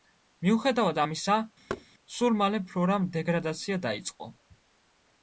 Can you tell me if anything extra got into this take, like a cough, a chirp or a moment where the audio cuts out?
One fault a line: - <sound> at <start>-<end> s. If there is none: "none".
- thud at 1.7-1.9 s